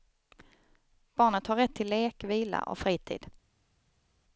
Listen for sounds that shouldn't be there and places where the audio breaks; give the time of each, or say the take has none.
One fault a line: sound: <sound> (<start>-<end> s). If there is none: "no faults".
no faults